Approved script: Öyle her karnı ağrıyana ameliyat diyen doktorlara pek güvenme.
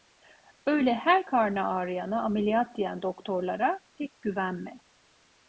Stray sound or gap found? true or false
false